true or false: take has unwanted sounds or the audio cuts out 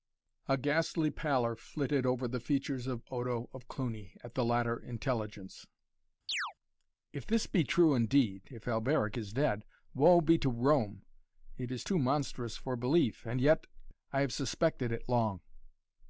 true